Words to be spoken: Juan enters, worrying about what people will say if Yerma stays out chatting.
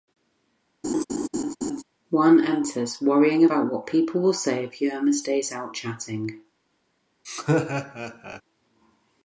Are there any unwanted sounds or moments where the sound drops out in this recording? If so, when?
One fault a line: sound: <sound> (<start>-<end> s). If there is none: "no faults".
sound: laugh (0.8-1.8 s)
sound: laugh (7.2-8.4 s)